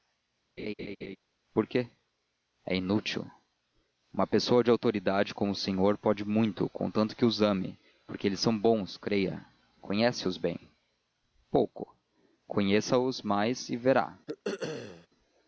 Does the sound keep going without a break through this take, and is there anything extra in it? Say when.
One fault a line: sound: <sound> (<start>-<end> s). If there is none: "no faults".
sound: laugh (0.6-1.2 s)
sound: throat clearing (14.3-15.1 s)